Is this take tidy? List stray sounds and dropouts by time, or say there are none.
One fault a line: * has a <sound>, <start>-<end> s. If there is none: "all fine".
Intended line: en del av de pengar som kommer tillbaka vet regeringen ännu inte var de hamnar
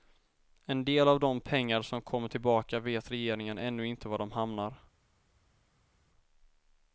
all fine